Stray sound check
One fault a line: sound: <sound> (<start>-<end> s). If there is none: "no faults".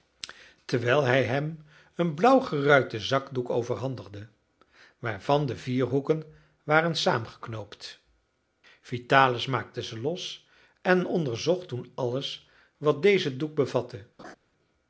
sound: laugh (14.2-14.4 s)